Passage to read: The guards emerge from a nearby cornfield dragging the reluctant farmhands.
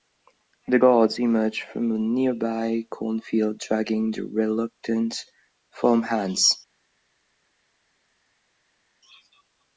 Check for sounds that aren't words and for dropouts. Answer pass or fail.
pass